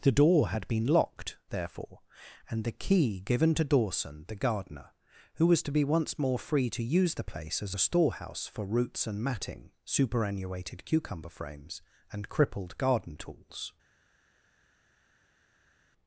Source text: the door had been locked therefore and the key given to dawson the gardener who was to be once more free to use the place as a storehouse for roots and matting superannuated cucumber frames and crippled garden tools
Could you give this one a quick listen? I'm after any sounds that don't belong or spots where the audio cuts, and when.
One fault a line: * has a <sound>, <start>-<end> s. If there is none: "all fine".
all fine